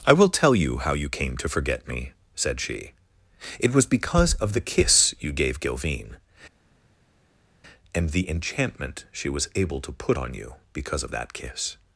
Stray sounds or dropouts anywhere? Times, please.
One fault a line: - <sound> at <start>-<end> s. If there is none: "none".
none